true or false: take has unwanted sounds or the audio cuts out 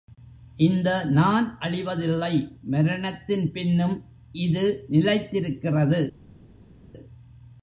false